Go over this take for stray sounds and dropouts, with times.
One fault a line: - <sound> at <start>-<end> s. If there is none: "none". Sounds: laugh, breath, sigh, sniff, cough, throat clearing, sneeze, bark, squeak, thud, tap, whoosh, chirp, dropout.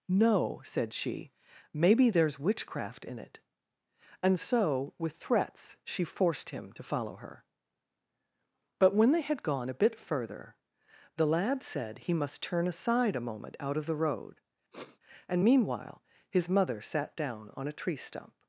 - sniff at 14.7-15.0 s